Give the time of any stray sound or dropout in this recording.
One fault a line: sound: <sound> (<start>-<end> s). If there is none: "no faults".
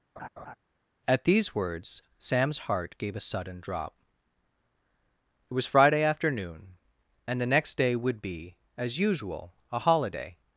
sound: laugh (0.2-0.5 s)